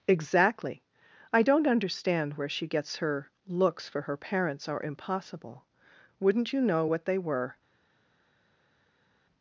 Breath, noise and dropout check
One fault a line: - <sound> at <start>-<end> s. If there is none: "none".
none